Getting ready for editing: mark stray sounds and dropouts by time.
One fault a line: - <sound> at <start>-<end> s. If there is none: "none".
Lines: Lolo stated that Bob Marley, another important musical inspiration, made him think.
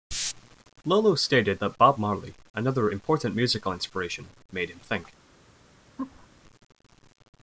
- laugh at 6.0-6.3 s